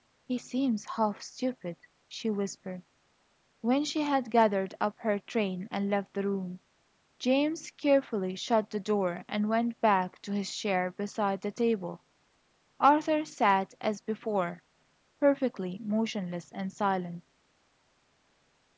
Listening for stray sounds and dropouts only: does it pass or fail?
pass